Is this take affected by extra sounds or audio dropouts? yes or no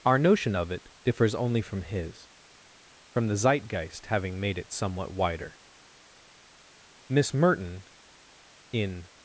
no